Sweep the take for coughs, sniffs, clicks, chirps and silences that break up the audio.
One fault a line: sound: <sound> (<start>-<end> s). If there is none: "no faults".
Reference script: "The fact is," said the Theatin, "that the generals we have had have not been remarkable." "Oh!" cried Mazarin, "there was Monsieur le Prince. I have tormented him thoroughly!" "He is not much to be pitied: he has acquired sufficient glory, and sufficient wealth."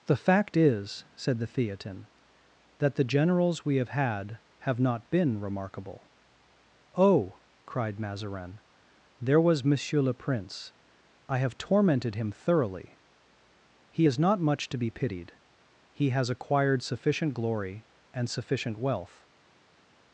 no faults